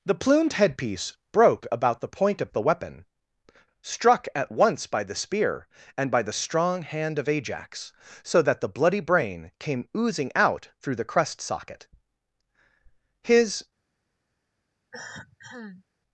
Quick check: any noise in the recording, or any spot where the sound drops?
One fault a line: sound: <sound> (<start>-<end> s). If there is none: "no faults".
sound: cough (14.9-15.9 s)